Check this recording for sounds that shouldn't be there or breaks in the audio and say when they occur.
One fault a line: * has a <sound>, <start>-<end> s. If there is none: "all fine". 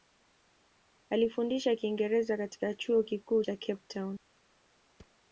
* has a thud, 5.0-5.2 s